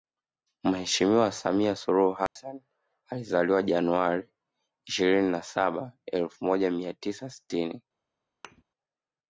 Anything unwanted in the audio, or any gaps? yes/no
yes